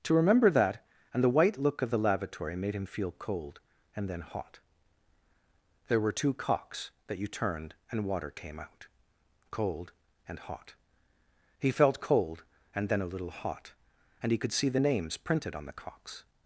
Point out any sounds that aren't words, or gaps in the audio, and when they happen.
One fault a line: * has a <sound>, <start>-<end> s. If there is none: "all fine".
all fine